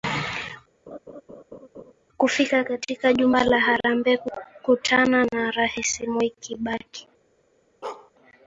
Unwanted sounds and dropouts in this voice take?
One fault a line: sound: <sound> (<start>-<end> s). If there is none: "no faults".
sound: laugh (0.9-1.9 s)
sound: bark (7.8-8.1 s)